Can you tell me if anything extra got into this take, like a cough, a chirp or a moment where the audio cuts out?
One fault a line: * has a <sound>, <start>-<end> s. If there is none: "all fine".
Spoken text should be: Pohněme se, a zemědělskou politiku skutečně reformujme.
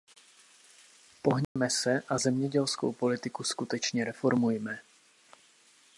* has a dropout, 1.4-1.6 s